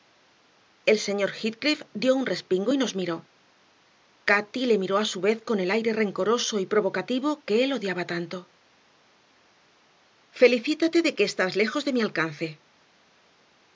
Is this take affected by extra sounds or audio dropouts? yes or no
no